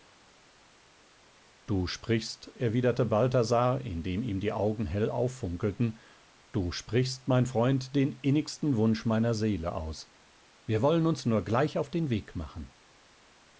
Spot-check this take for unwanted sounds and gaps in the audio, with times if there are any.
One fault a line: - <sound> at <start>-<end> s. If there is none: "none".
none